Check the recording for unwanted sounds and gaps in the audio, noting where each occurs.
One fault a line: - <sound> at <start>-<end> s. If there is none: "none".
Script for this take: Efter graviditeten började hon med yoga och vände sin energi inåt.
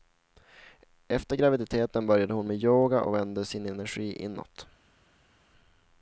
none